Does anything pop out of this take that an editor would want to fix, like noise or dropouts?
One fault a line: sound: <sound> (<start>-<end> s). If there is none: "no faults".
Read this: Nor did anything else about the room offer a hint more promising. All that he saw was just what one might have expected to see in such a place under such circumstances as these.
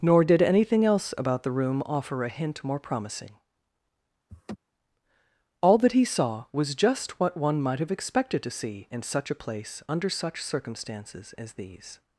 sound: laugh (4.3-4.6 s)